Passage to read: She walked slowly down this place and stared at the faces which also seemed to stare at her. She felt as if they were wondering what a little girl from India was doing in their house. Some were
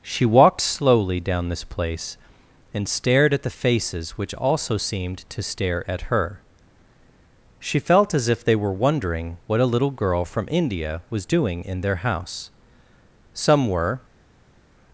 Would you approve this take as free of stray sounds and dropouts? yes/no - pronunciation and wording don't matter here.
yes